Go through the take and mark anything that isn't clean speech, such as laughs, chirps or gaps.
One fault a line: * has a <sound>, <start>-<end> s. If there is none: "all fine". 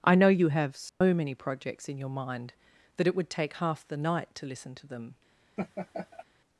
* has a dropout, 0.9-1.0 s
* has a laugh, 5.6-6.2 s